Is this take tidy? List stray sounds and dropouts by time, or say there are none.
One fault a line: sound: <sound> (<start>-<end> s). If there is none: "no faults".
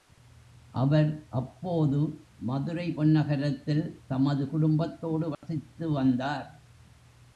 sound: dropout (5.3-5.4 s)